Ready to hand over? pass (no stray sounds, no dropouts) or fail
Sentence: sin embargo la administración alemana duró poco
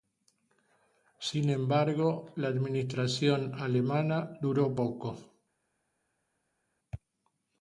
pass